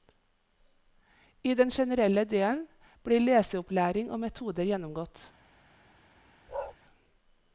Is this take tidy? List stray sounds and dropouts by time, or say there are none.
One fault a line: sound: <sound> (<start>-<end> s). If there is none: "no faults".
sound: bark (6.5-6.8 s)